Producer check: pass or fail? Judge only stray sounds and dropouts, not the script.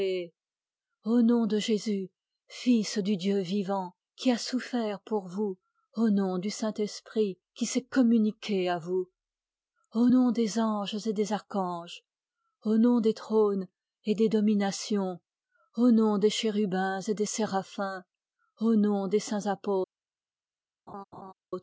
fail